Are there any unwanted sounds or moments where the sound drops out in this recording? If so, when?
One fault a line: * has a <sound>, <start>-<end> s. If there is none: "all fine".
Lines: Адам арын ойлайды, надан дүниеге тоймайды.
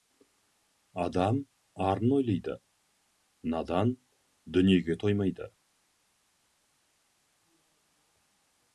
all fine